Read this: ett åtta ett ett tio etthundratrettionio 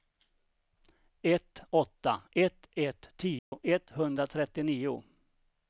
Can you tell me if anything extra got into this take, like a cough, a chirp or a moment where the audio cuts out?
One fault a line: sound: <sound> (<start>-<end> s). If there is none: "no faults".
sound: dropout (3.4-3.5 s)